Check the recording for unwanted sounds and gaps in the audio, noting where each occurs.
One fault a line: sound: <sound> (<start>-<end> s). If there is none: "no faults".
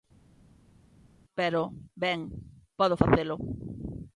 no faults